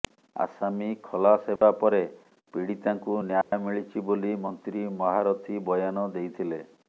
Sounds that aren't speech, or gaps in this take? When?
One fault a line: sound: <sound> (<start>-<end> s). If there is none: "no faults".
sound: dropout (1.6-1.6 s)
sound: dropout (3.4-3.5 s)